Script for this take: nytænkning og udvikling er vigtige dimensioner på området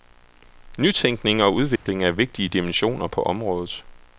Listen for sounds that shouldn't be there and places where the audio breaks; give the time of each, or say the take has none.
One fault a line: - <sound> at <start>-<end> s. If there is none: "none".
- dropout at 1.8-1.9 s